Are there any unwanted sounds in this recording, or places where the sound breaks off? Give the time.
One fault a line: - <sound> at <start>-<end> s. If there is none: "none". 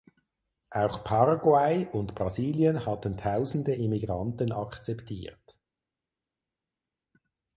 none